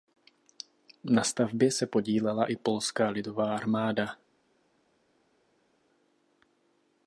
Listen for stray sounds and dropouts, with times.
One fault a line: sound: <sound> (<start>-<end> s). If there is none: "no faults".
no faults